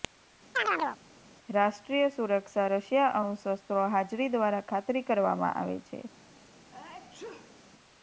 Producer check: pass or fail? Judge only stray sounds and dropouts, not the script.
fail